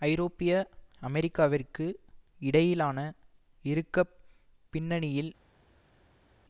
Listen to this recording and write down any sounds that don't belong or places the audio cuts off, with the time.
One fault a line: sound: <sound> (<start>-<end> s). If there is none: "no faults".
no faults